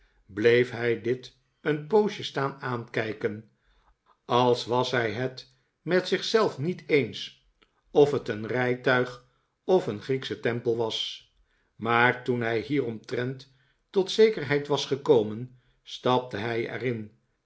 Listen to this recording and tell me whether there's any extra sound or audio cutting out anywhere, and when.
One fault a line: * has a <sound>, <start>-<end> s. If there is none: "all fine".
all fine